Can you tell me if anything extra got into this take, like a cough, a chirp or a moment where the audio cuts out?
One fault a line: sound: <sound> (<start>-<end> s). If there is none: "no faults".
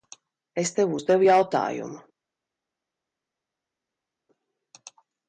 no faults